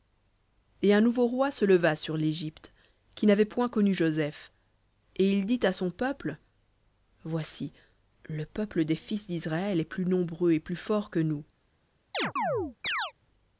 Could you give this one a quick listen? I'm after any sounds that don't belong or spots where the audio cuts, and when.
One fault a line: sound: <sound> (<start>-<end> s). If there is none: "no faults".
sound: chirp (12.1-13.1 s)